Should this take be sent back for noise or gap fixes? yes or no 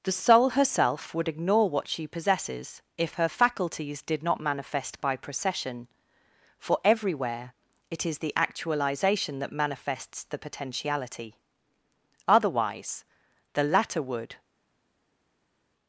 no